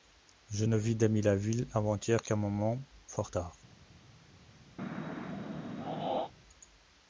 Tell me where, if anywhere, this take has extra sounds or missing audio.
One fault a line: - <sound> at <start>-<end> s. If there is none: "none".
- throat clearing at 4.8-6.3 s